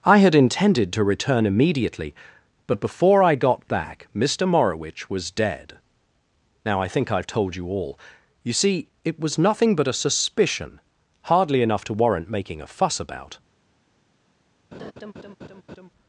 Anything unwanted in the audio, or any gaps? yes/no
yes